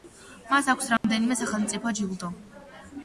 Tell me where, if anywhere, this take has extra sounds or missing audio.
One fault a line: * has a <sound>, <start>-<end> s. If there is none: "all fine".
* has a dropout, 1.0-1.0 s